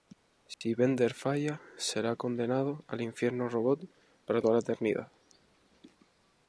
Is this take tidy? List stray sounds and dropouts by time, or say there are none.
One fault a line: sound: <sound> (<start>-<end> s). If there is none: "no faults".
sound: dropout (0.5-0.6 s)